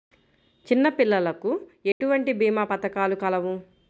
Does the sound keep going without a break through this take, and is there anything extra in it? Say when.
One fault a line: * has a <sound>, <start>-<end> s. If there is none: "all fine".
* has a dropout, 1.9-2.0 s